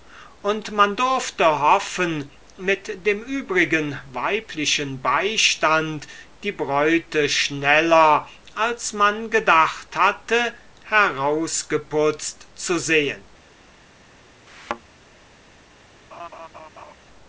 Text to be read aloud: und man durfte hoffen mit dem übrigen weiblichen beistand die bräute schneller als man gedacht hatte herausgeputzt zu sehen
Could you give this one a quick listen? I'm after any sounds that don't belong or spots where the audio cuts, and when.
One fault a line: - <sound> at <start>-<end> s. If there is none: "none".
- thud at 14.5-14.8 s
- laugh at 16.1-16.9 s